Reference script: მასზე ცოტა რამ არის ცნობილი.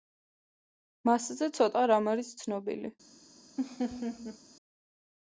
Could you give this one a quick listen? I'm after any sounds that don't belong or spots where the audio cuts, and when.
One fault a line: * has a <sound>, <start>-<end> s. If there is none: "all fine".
* has a laugh, 3.6-4.4 s